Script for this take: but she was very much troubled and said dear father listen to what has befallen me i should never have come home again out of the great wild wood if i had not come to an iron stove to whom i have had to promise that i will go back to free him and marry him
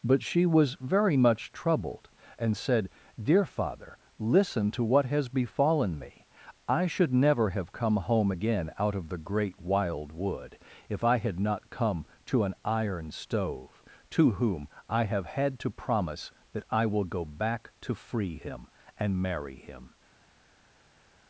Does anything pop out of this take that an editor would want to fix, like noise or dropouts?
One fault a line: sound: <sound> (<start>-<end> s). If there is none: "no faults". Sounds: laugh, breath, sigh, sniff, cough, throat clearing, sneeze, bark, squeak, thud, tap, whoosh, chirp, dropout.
no faults